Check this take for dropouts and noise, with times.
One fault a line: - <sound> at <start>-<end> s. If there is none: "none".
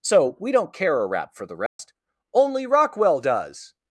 - dropout at 1.7-1.8 s